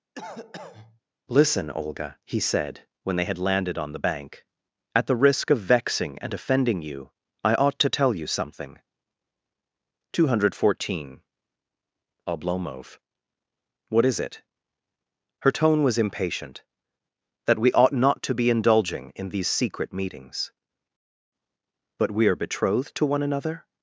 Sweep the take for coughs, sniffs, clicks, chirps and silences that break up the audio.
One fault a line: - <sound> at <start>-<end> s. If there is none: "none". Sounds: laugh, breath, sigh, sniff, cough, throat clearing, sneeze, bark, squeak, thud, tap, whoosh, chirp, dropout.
- cough at 0.2-1.0 s